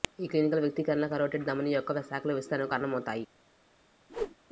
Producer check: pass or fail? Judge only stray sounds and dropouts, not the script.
fail